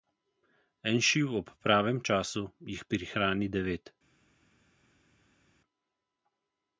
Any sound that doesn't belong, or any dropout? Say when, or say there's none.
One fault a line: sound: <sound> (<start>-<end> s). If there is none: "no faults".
no faults